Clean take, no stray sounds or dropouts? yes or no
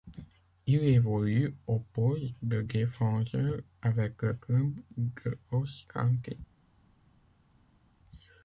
yes